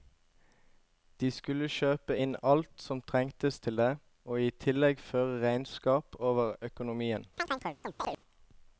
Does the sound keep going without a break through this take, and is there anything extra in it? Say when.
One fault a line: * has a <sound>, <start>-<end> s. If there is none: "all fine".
* has a chirp, 7.4-8.2 s